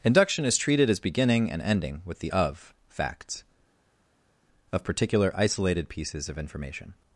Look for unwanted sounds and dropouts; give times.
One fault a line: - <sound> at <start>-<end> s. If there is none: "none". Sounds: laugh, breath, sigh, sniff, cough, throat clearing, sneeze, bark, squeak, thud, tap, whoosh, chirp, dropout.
none